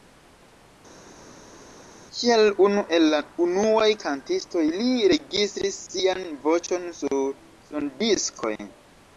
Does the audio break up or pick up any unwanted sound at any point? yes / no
no